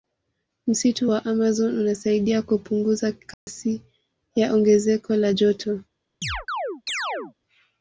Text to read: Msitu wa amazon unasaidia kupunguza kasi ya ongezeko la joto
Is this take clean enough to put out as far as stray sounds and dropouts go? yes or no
no